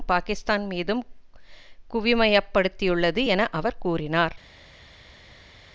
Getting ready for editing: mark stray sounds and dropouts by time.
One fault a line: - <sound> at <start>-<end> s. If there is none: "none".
none